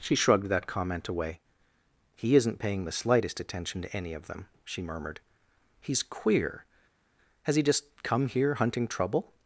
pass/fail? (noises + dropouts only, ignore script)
pass